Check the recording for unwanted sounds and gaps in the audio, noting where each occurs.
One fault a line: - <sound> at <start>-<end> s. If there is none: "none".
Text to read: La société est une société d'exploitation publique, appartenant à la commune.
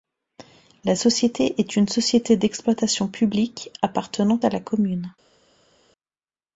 none